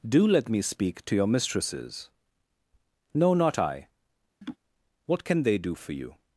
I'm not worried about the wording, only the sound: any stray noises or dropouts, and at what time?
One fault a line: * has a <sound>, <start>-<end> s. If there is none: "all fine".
* has a laugh, 4.4-4.6 s